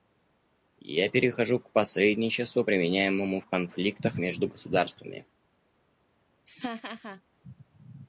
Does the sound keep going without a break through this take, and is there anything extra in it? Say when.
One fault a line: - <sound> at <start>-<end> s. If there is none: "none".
- laugh at 6.5-7.2 s